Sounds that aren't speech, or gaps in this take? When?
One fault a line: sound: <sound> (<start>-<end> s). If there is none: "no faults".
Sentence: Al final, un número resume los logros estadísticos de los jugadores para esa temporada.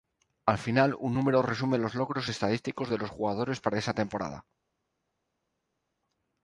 no faults